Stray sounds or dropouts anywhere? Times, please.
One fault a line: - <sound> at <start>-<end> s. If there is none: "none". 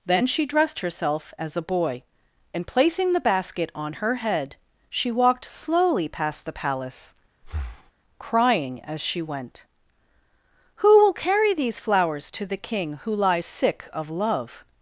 - breath at 7.4-7.9 s